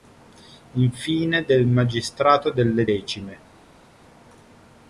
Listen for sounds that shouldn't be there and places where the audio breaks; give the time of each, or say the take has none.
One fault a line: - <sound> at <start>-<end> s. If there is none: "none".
none